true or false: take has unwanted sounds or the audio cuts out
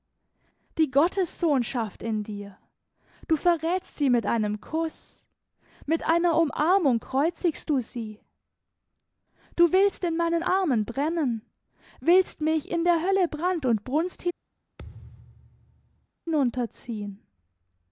true